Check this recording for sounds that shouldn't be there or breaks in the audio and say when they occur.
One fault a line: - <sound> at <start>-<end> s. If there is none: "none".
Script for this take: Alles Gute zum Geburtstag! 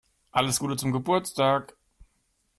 none